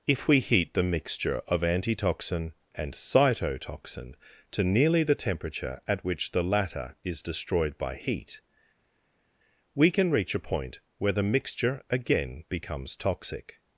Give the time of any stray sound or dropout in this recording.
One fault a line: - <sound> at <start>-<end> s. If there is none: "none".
none